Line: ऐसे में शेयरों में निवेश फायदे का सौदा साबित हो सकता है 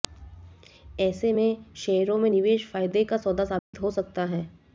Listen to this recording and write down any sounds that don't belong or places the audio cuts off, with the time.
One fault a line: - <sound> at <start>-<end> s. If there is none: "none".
- dropout at 3.6-3.7 s